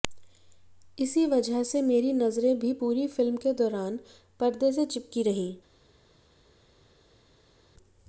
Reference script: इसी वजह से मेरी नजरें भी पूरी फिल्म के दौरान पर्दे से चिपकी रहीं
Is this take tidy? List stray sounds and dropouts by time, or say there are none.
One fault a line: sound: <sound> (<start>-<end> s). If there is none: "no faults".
no faults